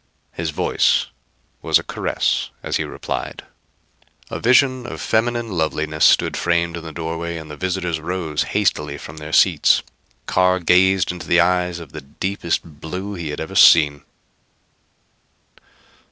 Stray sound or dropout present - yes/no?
no